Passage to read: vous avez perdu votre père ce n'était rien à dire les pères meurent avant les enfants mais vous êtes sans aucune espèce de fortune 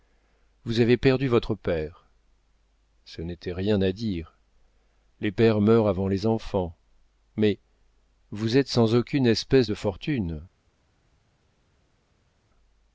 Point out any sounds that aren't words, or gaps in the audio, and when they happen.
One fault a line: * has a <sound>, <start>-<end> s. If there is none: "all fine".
all fine